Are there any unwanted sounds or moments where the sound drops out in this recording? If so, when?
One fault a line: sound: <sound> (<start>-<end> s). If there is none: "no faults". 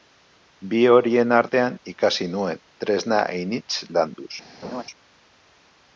sound: laugh (4.6-4.8 s)